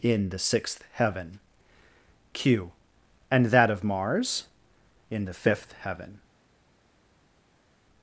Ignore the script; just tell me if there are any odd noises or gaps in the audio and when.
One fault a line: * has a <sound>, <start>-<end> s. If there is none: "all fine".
all fine